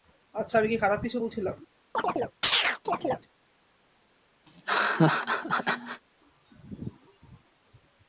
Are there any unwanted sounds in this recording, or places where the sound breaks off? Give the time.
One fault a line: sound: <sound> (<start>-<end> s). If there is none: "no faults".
sound: chirp (1.9-3.3 s)
sound: laugh (4.5-6.0 s)